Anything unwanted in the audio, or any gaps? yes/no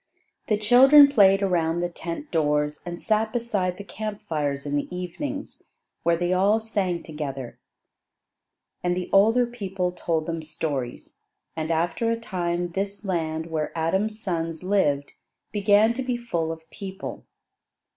no